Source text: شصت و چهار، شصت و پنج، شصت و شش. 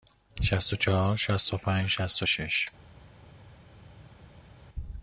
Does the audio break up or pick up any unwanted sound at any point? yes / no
no